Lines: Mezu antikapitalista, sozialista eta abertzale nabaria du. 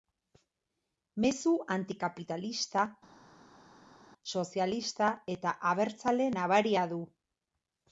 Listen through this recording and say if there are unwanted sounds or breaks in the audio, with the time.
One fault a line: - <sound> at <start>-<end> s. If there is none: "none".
none